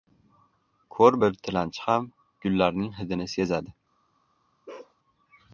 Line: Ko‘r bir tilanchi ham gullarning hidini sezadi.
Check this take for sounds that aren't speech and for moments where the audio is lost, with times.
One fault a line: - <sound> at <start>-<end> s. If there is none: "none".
- bark at 4.7-5.0 s